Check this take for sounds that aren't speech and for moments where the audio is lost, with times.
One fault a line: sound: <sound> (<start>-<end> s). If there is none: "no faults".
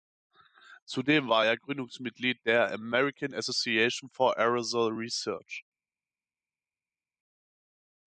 no faults